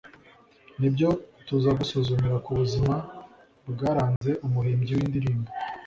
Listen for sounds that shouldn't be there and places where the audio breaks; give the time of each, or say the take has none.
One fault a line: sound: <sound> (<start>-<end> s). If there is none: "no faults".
sound: dropout (4.2-4.2 s)